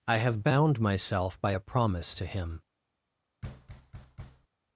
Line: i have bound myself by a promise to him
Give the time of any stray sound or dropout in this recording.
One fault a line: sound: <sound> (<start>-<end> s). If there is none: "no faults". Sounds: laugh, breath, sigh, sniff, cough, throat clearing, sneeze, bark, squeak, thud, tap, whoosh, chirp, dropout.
sound: thud (3.4-4.5 s)